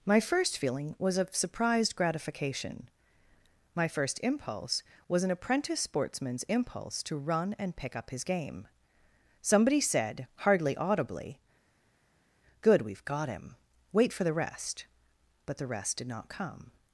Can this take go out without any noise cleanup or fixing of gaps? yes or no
yes